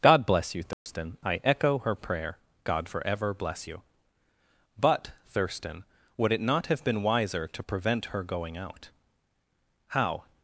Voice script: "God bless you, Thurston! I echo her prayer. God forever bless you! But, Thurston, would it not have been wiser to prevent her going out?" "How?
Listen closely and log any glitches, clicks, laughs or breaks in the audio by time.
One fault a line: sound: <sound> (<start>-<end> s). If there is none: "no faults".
sound: dropout (0.7-0.9 s)